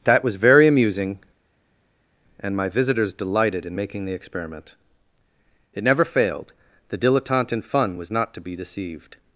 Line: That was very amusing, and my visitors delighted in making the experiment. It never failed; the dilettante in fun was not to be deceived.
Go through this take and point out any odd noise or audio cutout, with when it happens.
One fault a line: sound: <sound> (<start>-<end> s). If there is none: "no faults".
no faults